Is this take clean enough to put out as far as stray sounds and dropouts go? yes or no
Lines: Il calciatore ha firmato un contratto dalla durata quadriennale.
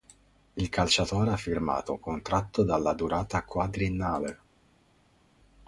yes